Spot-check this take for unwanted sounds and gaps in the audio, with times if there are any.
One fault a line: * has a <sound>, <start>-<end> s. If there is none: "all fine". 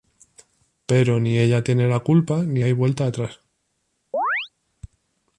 * has a chirp, 4.1-4.5 s